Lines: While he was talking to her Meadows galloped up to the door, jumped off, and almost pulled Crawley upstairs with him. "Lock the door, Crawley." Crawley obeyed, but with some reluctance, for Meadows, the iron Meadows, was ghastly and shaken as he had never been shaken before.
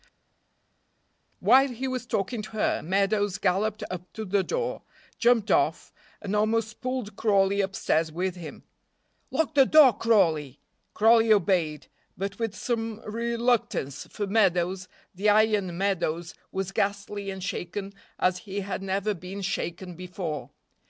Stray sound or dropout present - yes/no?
no